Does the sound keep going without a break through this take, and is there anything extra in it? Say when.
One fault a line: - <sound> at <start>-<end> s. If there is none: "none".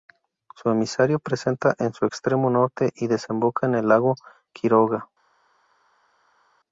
none